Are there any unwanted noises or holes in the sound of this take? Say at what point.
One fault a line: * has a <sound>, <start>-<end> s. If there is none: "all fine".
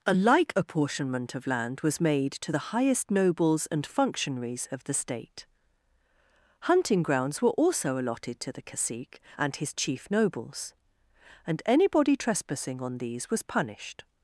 all fine